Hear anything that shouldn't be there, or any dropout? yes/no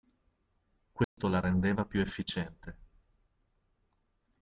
yes